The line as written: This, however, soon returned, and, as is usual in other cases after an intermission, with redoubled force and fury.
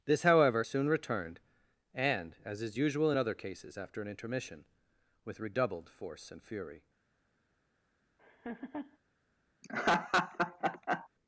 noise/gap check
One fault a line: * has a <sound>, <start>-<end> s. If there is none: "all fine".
* has a laugh, 8.2-9.0 s
* has a laugh, 9.6-11.1 s